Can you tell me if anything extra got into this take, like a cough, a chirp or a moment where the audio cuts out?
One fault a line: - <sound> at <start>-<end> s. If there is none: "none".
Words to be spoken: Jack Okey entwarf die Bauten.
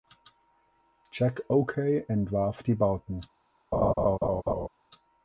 - laugh at 3.7-4.7 s